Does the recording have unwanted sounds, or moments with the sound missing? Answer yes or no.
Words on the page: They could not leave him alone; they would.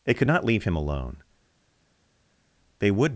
no